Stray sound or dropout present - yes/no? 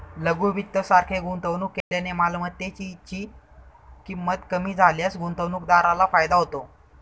yes